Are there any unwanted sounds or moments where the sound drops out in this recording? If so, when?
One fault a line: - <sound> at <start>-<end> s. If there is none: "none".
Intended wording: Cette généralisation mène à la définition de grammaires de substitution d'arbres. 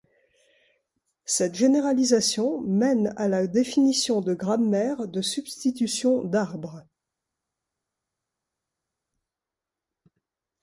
none